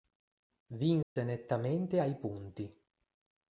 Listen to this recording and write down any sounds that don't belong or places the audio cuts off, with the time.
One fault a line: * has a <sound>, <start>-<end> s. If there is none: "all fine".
* has a dropout, 1.0-1.2 s